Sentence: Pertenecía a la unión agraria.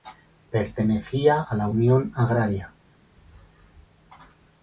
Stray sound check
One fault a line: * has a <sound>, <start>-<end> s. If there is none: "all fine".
all fine